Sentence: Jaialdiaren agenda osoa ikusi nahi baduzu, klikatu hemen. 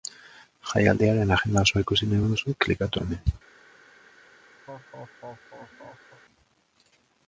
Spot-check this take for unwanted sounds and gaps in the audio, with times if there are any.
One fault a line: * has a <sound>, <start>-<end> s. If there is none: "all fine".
* has a laugh, 4.7-6.2 s